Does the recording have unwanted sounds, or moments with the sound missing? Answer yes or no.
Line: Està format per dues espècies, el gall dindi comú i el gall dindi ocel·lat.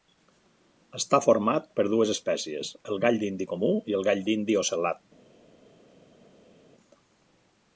no